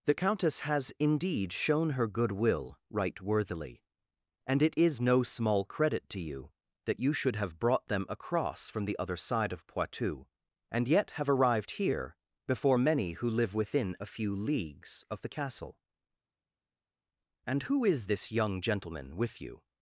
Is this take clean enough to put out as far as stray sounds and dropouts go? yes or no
yes